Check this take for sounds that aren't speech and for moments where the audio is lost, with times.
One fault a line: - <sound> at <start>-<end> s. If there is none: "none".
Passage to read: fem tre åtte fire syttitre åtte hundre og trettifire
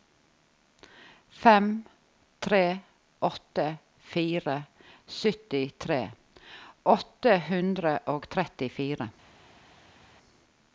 none